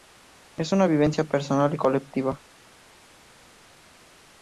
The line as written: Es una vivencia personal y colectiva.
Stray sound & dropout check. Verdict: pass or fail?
pass